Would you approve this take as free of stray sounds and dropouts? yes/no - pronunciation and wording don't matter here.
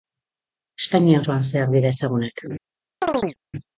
no